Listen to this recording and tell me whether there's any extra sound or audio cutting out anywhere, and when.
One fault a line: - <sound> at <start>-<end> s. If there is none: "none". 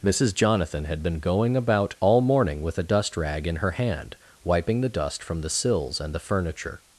none